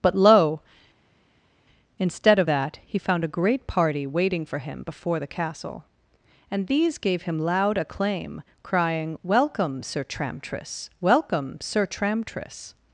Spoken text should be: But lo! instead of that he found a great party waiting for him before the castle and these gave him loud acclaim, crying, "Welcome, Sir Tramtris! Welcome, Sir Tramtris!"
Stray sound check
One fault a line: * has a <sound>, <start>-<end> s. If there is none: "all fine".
all fine